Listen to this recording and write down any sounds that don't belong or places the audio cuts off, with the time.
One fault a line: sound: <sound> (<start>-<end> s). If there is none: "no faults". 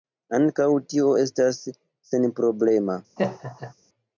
sound: laugh (3.2-3.7 s)